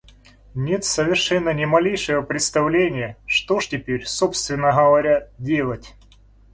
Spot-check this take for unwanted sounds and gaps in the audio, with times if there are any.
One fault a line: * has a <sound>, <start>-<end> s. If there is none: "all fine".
all fine